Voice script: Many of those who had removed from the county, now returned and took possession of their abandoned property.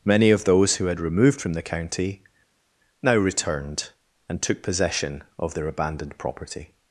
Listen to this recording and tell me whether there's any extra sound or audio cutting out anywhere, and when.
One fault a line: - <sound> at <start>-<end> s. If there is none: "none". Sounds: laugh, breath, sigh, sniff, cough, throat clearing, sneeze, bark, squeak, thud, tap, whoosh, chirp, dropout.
none